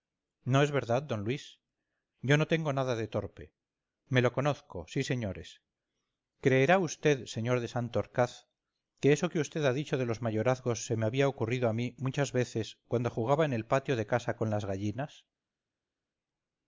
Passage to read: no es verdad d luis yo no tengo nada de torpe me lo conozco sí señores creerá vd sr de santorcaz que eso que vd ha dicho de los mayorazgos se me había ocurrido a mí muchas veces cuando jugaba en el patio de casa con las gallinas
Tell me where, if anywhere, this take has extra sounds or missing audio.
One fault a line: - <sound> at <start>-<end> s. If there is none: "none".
none